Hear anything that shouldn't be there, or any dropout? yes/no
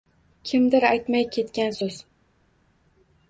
no